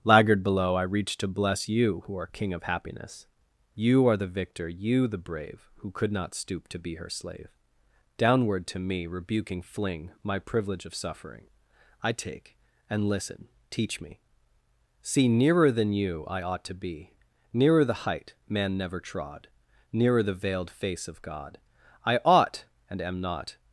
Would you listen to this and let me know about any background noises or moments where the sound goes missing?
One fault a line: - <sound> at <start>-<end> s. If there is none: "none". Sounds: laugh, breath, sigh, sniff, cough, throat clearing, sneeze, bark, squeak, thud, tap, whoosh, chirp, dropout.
none